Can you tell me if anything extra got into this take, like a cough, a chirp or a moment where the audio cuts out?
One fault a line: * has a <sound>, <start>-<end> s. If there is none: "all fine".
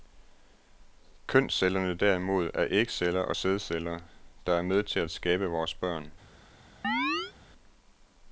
* has a chirp, 6.8-7.3 s